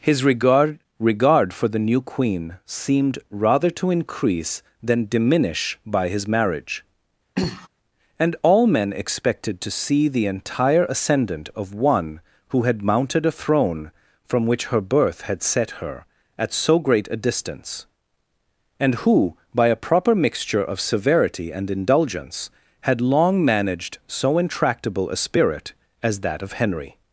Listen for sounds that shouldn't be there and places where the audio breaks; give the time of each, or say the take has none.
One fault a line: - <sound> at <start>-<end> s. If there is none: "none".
- throat clearing at 7.4-7.7 s